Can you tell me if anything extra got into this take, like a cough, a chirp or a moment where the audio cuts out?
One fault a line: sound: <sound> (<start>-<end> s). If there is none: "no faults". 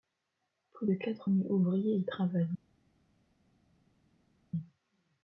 no faults